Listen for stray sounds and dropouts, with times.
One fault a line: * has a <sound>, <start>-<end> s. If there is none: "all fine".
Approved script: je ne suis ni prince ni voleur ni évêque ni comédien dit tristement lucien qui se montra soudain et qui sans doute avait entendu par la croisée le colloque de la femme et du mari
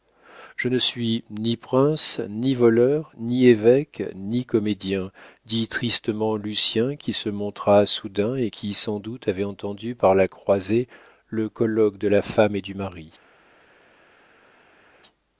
all fine